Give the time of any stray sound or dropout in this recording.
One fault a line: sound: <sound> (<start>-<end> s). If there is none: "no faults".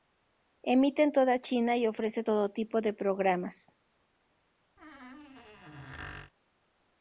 sound: squeak (4.8-6.3 s)